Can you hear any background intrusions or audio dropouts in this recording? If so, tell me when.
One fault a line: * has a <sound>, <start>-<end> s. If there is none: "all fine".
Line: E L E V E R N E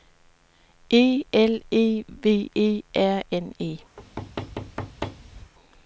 * has a thud, 4.0-5.5 s